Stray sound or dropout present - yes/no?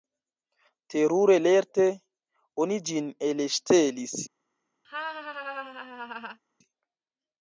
yes